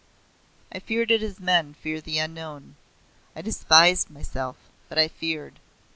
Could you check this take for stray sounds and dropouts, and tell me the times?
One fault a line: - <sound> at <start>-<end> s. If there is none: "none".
none